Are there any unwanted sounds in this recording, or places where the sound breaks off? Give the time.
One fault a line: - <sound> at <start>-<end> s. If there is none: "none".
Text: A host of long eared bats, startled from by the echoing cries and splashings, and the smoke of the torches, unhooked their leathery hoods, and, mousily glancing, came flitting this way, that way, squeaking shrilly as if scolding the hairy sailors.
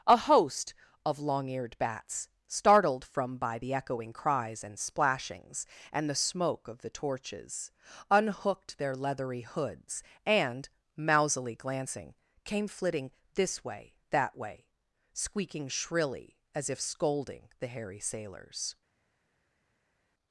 none